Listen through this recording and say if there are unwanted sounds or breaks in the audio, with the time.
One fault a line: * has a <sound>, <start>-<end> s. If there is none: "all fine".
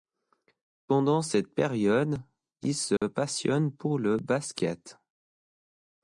* has a dropout, 3.0-3.0 s